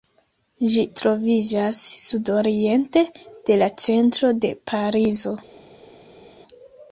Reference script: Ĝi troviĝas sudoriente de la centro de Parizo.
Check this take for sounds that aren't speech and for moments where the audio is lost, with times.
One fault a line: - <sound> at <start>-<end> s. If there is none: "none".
none